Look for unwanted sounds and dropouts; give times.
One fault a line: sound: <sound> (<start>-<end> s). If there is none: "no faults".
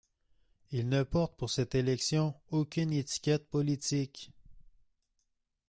no faults